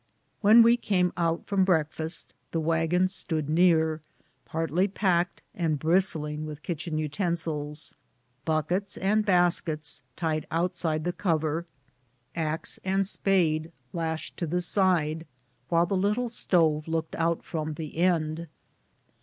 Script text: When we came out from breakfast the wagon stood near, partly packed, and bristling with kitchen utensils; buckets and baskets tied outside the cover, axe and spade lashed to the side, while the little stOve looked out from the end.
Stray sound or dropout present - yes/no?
no